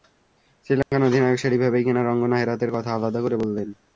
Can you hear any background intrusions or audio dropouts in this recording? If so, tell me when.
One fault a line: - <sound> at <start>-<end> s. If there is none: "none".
- dropout at 0.8-0.9 s